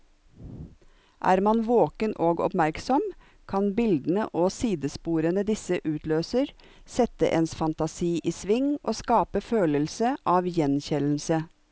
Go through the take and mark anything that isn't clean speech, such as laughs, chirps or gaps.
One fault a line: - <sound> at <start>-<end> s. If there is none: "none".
none